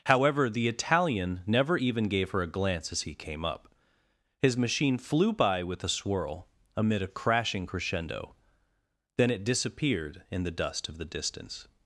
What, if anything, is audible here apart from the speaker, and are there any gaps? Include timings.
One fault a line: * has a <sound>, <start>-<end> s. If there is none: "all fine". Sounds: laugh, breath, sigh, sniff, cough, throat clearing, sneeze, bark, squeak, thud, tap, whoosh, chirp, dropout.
all fine